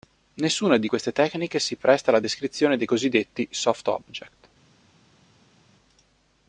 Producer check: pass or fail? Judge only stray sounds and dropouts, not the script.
pass